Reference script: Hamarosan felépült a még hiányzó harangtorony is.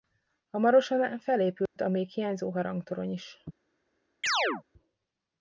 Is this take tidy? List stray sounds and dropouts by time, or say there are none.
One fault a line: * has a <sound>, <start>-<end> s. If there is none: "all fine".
* has a dropout, 1.7-1.8 s
* has a chirp, 4.2-4.6 s